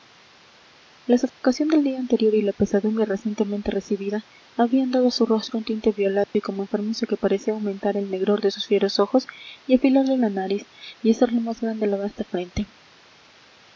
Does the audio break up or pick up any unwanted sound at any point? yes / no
yes